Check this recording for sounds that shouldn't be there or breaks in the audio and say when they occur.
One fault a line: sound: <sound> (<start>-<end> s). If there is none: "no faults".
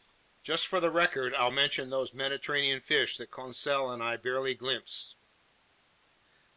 no faults